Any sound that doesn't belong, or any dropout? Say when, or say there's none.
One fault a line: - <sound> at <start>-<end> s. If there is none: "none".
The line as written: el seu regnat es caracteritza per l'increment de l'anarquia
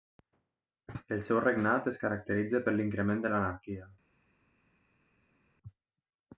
none